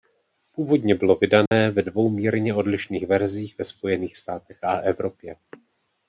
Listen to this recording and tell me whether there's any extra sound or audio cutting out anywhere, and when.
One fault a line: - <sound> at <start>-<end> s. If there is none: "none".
- dropout at 1.5-1.5 s